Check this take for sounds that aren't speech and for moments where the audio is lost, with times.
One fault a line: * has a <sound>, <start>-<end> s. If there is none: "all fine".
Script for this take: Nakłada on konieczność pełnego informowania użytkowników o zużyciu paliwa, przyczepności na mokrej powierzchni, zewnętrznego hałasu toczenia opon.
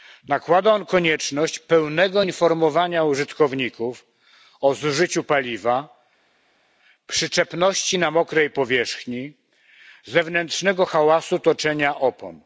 all fine